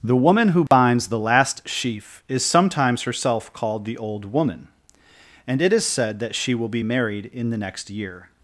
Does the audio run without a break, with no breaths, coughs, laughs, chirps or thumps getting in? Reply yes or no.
no